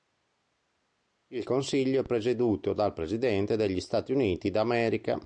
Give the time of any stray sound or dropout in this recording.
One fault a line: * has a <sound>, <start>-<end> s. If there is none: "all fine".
all fine